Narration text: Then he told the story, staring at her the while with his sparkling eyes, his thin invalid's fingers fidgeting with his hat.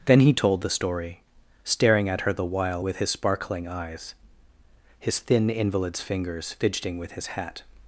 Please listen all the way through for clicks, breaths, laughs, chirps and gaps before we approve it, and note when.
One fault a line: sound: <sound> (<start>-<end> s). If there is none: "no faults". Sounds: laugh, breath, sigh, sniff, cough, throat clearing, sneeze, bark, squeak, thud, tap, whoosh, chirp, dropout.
no faults